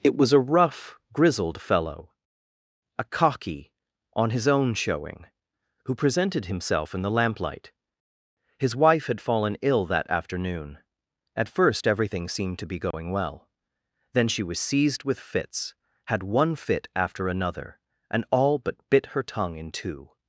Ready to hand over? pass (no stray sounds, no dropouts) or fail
fail